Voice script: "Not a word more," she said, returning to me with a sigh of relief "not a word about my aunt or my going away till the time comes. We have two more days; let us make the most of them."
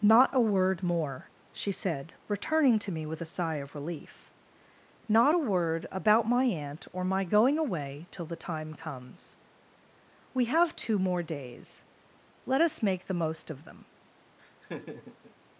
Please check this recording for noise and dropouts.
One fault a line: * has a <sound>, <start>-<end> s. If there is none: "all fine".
* has a laugh, 14.4-15.3 s